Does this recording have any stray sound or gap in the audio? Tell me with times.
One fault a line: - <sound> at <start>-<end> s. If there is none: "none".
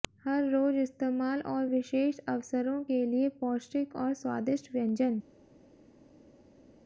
none